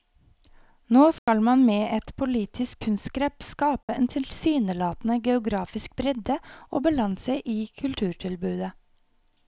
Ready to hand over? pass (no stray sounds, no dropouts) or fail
fail